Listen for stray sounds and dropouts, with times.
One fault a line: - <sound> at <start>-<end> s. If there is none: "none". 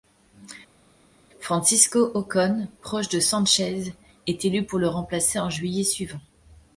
none